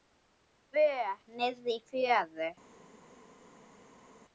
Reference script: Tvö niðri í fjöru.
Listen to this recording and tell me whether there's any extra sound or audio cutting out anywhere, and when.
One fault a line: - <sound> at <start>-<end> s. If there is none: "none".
none